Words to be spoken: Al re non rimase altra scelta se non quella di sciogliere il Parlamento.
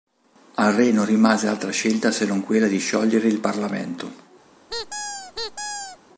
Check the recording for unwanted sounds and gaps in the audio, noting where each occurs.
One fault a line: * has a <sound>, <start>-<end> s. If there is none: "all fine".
* has a squeak, 4.7-6.0 s